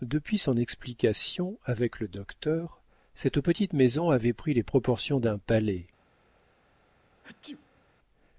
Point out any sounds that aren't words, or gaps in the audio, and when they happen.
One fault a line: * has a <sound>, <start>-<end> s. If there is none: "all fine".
* has a sneeze, 7.2-7.8 s